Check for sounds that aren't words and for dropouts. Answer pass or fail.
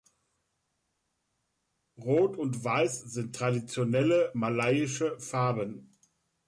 pass